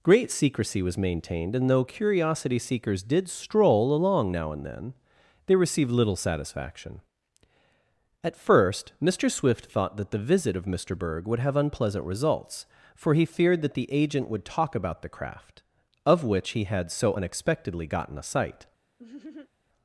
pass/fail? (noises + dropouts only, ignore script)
fail